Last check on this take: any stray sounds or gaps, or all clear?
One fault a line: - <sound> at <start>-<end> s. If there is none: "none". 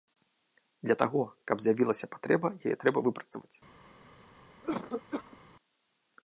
- cough at 4.6-5.4 s